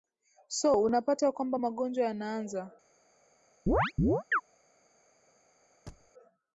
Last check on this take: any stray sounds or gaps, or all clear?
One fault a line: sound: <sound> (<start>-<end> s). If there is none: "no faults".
sound: chirp (3.7-4.4 s)
sound: thud (5.9-6.1 s)